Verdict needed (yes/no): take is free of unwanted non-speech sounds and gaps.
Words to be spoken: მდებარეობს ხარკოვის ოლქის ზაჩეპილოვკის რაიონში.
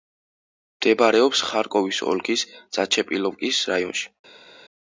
yes